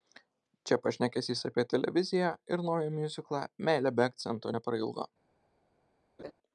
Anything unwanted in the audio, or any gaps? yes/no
yes